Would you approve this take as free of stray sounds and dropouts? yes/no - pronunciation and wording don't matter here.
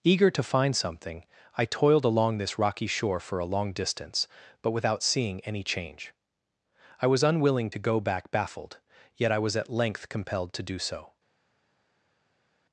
yes